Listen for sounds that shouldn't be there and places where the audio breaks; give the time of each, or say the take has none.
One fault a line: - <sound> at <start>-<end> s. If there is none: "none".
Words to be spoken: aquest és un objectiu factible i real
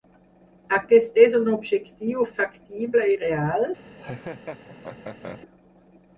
- laugh at 3.9-5.4 s